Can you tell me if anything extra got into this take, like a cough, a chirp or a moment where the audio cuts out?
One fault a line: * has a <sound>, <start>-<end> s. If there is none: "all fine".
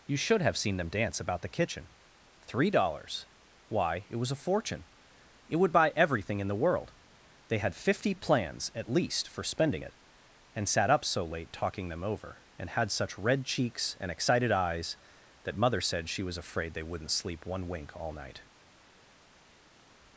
all fine